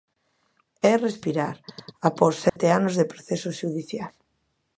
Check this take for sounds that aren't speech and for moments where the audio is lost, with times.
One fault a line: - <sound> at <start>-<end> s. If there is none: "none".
- dropout at 2.5-2.6 s